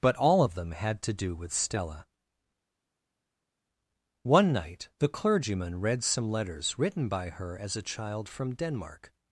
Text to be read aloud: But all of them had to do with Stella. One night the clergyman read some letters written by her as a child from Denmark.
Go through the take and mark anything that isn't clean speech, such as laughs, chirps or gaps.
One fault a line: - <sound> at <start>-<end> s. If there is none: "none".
none